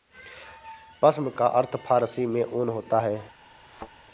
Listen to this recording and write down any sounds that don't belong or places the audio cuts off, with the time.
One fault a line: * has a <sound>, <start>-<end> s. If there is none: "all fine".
* has a thud, 3.6-3.9 s